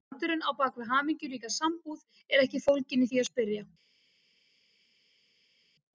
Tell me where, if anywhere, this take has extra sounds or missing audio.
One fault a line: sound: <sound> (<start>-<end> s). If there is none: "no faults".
no faults